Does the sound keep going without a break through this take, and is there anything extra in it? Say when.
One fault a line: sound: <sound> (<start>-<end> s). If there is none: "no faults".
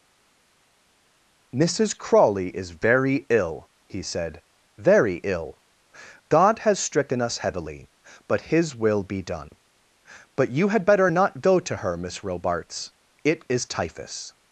no faults